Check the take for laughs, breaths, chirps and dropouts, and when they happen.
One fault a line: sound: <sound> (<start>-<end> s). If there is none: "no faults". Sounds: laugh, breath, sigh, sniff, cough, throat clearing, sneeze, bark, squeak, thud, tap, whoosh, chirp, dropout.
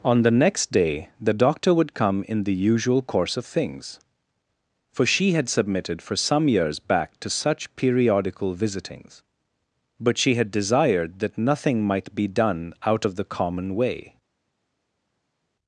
no faults